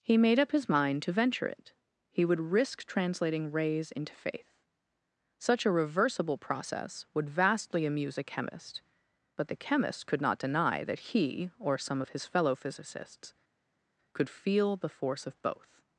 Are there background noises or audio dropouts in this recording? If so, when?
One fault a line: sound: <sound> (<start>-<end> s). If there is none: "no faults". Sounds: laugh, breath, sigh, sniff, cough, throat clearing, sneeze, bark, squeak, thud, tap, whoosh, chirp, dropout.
no faults